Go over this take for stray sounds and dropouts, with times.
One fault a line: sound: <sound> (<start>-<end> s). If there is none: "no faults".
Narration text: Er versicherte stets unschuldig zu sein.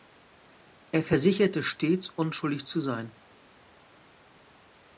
no faults